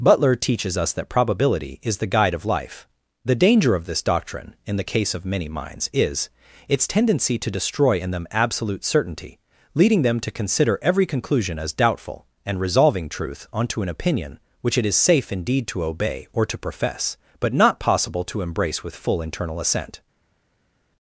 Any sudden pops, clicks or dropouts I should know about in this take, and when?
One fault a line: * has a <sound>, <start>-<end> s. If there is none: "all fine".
all fine